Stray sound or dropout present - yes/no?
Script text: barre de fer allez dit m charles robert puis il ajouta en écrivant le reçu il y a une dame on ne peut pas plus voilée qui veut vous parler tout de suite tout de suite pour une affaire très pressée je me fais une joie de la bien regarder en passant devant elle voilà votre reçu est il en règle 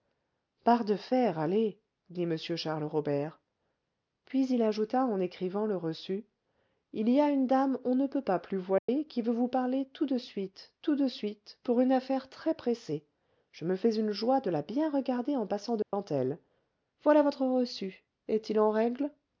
yes